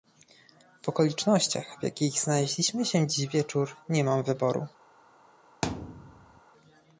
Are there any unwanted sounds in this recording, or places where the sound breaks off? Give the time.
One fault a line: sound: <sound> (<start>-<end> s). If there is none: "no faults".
sound: thud (5.6-6.4 s)